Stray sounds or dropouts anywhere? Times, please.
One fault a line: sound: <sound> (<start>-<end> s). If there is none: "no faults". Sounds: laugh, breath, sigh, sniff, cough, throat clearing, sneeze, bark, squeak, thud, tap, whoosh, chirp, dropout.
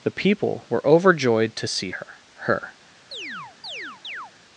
sound: chirp (3.1-4.3 s)